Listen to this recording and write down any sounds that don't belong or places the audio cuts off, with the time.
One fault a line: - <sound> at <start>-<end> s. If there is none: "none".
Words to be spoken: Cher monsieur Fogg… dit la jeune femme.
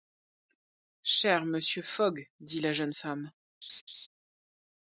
- laugh at 3.6-4.1 s